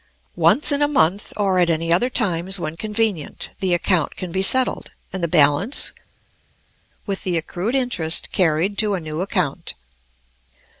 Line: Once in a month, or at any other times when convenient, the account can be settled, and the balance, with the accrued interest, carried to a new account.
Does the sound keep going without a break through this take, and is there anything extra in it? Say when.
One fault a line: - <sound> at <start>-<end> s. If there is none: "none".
none